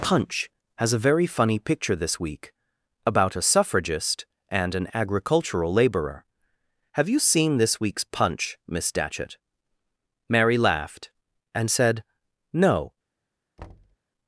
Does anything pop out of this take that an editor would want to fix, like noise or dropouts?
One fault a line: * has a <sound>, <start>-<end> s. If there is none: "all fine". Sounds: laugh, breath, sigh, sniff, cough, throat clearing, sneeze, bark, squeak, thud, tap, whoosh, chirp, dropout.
* has a thud, 13.6-14.0 s